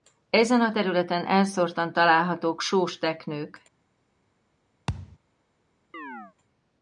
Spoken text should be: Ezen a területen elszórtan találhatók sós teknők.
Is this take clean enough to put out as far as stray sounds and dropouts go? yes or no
no